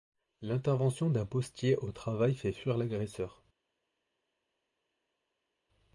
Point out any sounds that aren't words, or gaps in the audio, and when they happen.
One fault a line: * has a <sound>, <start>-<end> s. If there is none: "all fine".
all fine